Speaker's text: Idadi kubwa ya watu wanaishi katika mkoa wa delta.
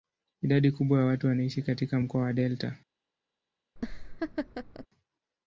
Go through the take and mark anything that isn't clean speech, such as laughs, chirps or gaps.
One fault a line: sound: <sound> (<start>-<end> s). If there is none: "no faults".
sound: laugh (3.8-4.9 s)